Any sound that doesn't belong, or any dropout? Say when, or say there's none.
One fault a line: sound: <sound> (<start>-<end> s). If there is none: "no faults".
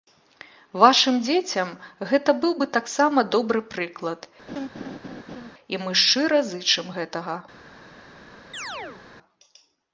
sound: laugh (4.5-5.5 s)
sound: chirp (8.5-9.0 s)